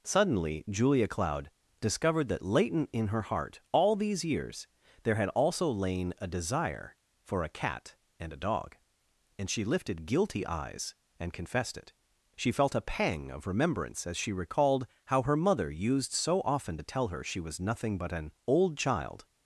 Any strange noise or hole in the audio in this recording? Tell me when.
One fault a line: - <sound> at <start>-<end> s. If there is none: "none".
none